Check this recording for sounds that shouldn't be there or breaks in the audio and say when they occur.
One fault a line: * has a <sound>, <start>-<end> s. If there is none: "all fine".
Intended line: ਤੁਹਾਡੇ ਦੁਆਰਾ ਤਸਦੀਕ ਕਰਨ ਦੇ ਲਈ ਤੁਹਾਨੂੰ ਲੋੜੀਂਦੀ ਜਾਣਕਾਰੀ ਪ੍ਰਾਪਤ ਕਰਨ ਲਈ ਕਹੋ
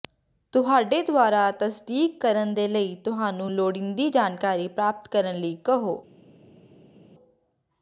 all fine